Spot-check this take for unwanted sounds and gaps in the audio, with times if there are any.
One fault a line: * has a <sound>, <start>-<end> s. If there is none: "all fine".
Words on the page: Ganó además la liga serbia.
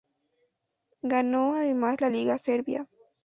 all fine